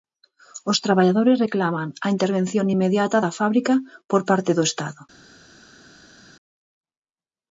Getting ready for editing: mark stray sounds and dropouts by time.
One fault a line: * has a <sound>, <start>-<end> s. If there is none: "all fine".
all fine